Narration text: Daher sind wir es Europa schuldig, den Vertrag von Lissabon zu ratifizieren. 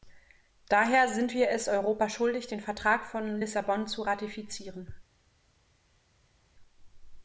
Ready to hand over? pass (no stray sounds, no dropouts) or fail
pass